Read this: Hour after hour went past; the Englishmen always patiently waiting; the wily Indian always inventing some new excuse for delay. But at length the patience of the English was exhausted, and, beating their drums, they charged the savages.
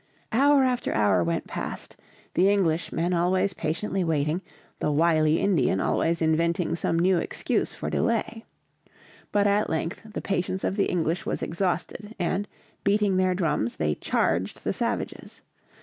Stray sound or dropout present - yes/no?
no